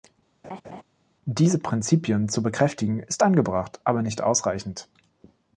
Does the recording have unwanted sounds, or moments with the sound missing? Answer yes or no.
yes